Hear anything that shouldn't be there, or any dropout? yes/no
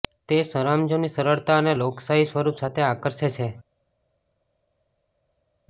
no